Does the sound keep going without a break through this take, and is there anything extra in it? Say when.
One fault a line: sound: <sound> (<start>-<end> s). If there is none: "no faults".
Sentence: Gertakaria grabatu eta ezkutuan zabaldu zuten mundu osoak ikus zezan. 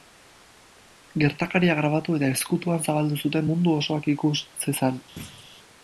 sound: thud (5.2-5.5 s)